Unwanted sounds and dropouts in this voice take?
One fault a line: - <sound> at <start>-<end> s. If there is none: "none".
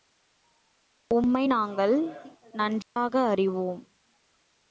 - dropout at 2.8-3.0 s